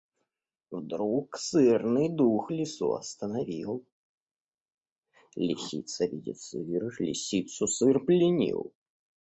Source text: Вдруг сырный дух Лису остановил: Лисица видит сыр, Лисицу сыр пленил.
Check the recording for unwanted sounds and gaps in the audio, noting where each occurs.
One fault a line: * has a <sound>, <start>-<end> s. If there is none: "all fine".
all fine